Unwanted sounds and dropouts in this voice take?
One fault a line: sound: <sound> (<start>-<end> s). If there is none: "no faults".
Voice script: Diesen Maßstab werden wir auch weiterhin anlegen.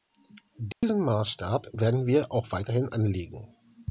sound: dropout (0.7-0.8 s)